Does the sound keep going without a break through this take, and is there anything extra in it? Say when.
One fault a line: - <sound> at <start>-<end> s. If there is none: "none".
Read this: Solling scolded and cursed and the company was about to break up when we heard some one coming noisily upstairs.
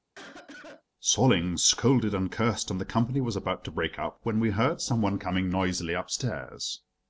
- cough at 0.1-0.8 s